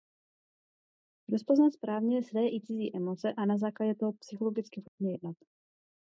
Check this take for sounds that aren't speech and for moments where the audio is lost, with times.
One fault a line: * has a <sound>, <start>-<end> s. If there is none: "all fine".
* has a dropout, 4.9-5.0 s